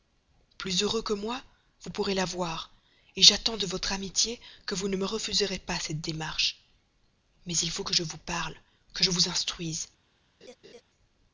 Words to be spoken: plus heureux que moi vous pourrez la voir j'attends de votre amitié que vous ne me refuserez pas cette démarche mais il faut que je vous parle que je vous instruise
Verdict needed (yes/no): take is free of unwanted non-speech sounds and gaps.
no